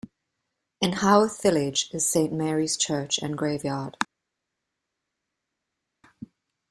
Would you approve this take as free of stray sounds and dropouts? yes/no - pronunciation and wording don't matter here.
yes